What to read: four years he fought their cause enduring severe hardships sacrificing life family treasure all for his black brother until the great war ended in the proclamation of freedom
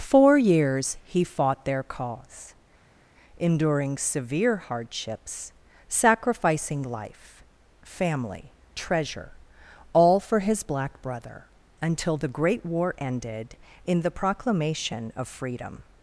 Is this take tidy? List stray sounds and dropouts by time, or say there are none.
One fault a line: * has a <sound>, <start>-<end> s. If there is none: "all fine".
all fine